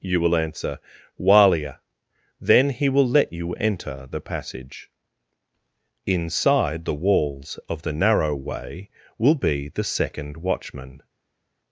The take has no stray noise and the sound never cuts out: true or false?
true